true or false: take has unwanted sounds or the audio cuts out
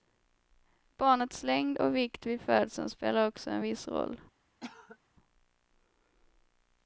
true